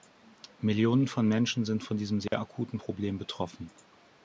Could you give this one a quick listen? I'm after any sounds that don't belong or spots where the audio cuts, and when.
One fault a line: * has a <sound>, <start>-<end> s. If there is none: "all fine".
* has a dropout, 2.3-2.3 s